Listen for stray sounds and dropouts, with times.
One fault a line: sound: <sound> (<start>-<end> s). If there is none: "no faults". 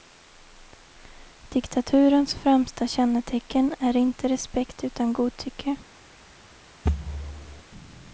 sound: thud (6.8-7.6 s)